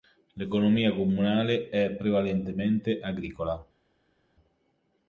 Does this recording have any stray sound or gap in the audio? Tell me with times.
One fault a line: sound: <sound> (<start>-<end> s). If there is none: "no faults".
no faults